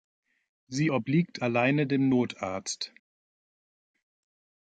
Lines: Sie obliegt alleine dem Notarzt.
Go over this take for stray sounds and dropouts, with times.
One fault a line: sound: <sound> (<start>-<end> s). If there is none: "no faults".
no faults